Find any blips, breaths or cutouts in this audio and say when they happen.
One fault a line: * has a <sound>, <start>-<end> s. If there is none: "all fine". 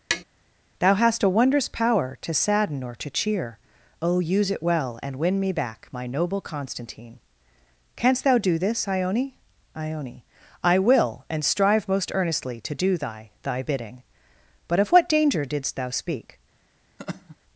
* has a tap, 0.1-0.2 s
* has a laugh, 17.0-17.4 s